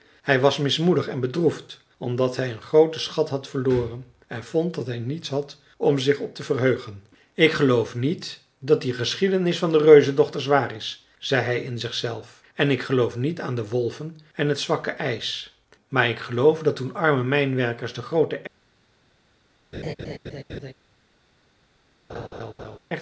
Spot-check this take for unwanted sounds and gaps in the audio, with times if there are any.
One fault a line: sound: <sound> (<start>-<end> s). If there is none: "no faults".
sound: laugh (19.7-20.7 s)
sound: laugh (22.1-22.8 s)